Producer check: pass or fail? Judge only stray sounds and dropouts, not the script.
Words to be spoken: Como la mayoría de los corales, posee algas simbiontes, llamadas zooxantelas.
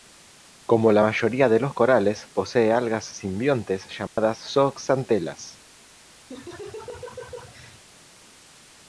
fail